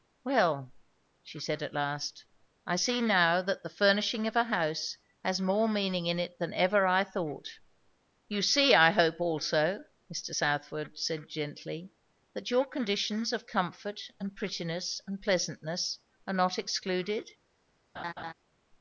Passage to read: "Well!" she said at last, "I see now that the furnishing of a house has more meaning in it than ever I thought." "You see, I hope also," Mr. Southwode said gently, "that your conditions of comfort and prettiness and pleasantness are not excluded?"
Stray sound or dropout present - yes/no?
yes